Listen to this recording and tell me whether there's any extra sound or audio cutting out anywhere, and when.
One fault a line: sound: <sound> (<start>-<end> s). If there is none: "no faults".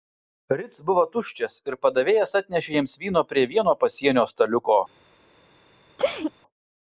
sound: sneeze (6.0-6.3 s)